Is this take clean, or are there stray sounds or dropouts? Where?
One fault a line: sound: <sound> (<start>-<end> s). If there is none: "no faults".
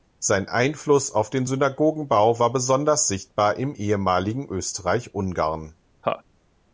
sound: laugh (6.0-6.2 s)